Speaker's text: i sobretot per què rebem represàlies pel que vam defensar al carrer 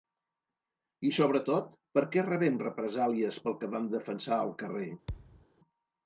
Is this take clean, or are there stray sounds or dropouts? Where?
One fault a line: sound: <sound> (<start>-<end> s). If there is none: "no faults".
sound: thud (5.1-5.5 s)